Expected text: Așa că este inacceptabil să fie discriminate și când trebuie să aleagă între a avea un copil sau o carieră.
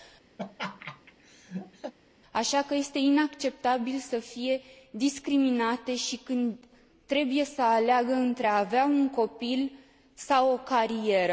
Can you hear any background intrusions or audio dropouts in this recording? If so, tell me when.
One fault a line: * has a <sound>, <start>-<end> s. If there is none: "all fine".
* has a laugh, 0.4-1.9 s